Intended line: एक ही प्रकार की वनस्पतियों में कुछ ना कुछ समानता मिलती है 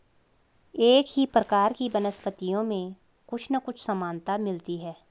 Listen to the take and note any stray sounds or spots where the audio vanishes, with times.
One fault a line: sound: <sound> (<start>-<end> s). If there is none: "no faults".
no faults